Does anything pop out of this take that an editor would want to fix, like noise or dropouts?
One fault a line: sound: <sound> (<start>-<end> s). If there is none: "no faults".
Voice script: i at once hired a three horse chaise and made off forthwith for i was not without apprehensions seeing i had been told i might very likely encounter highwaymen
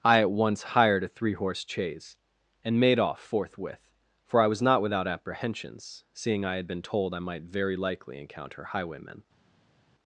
no faults